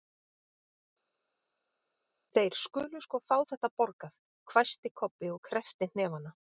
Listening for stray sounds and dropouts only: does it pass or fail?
pass